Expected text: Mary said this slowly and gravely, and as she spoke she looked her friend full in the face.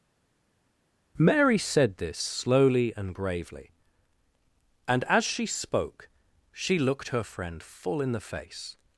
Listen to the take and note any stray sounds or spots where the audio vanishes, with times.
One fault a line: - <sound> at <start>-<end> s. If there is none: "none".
none